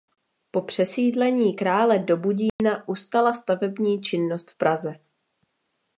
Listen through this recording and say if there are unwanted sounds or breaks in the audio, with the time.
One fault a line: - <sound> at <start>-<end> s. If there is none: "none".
- dropout at 2.5-2.6 s